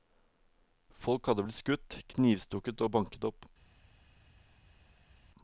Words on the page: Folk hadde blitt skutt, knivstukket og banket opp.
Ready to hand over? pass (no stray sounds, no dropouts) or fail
pass